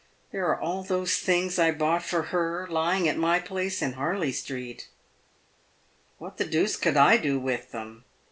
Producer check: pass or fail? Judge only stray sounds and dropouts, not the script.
pass